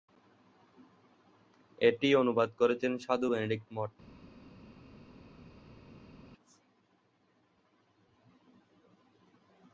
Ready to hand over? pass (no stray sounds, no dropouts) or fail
pass